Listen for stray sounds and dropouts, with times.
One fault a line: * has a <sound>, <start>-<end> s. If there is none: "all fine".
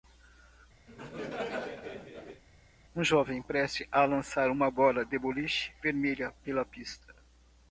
* has a laugh, 0.9-2.4 s